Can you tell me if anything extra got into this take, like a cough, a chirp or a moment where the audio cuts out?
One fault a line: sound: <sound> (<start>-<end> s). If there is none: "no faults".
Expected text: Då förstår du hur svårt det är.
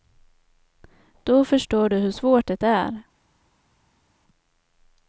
no faults